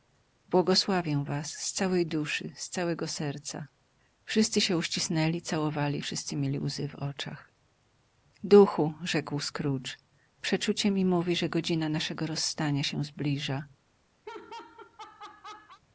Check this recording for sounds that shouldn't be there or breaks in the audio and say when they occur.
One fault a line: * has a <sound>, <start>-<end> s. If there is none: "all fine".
* has a laugh, 14.3-15.8 s